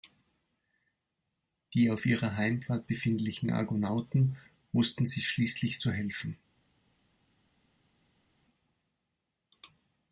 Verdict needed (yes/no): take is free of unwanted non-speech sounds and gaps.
yes